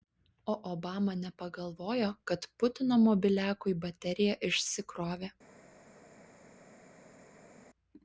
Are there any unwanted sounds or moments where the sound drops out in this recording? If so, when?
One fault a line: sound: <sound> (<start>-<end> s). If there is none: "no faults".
no faults